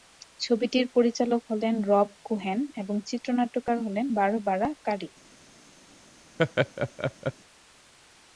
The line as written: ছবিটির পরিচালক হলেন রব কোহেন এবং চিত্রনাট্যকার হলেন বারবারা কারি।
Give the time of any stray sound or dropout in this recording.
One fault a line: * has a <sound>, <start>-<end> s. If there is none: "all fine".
* has a laugh, 6.4-7.3 s